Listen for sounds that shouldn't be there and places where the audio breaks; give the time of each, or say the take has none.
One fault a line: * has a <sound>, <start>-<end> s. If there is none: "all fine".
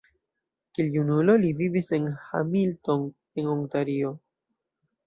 all fine